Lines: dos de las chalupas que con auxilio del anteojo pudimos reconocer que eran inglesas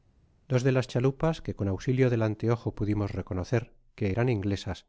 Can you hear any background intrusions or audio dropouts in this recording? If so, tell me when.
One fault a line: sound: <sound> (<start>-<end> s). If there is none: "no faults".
no faults